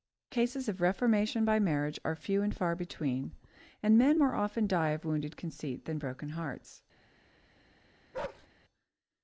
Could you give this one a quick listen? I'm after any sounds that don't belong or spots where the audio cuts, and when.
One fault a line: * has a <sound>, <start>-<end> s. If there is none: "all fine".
* has a bark, 8.1-8.5 s